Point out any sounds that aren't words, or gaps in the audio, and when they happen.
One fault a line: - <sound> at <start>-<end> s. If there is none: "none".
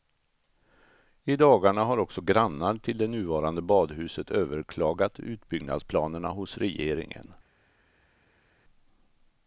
none